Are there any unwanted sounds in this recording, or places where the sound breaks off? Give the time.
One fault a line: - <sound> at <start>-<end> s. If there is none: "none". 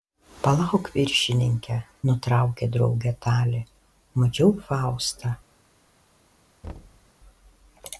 - thud at 6.6-7.1 s